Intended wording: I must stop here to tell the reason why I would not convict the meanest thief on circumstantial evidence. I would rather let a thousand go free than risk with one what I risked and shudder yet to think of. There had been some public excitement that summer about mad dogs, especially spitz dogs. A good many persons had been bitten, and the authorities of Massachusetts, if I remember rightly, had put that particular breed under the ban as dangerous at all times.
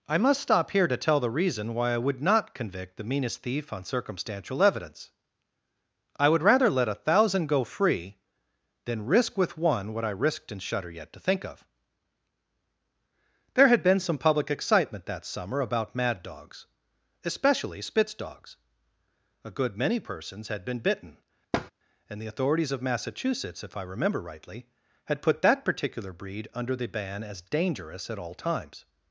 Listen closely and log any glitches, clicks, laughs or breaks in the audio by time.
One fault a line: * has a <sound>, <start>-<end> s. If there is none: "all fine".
* has a thud, 21.5-21.7 s